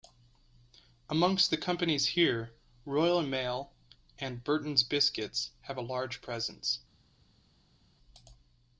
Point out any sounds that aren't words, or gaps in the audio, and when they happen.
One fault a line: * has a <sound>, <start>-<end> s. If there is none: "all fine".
all fine